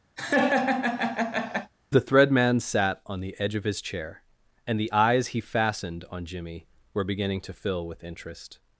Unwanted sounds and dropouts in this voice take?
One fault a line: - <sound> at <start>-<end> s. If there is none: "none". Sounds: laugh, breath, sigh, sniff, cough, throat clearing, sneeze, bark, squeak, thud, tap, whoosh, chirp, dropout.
- laugh at 0.2-1.7 s